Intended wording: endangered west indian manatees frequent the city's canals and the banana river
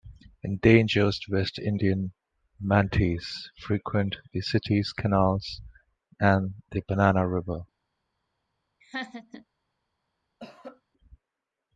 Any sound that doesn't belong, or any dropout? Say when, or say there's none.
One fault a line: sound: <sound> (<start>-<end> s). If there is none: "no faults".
sound: laugh (8.8-9.5 s)
sound: cough (10.4-10.8 s)